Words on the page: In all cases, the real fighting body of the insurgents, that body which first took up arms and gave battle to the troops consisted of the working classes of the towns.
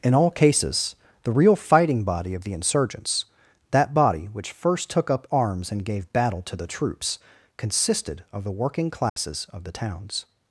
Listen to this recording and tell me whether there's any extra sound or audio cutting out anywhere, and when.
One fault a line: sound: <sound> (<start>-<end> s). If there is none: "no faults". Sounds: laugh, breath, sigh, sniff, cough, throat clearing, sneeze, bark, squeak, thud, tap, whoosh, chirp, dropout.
sound: dropout (9.1-9.2 s)